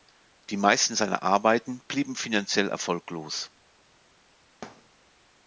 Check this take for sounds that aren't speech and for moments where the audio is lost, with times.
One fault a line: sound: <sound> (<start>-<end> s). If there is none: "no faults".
sound: thud (4.6-4.9 s)